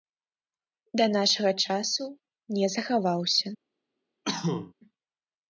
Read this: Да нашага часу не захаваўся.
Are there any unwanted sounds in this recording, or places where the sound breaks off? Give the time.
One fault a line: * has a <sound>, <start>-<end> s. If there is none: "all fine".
* has a cough, 4.2-4.7 s